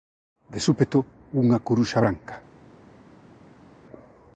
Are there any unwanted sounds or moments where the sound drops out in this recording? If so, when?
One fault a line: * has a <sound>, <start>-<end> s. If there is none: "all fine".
all fine